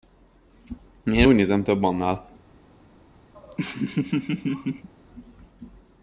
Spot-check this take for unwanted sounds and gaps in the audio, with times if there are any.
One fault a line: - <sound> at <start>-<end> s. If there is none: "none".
- laugh at 3.3-4.9 s